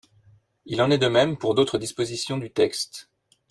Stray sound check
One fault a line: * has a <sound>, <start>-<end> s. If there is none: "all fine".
all fine